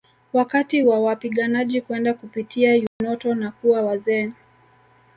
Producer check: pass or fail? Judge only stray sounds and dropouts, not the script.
fail